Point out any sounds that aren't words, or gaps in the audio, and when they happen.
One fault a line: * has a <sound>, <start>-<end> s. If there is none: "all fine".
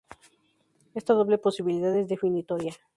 all fine